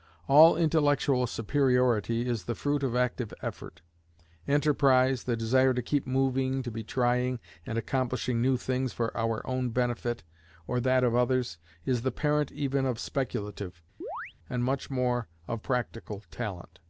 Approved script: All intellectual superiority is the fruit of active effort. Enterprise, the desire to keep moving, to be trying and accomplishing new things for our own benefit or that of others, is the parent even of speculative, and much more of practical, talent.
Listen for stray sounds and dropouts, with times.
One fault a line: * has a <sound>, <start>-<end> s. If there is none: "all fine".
* has a chirp, 14.0-14.3 s